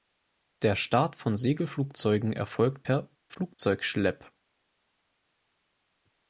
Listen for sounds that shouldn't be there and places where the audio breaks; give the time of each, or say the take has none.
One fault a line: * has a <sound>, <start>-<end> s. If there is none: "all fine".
all fine